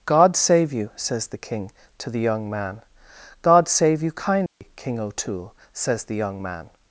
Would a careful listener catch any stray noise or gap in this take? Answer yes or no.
yes